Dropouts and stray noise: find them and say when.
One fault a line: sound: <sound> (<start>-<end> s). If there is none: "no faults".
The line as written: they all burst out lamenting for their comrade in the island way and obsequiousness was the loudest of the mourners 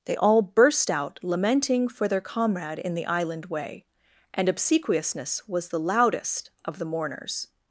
no faults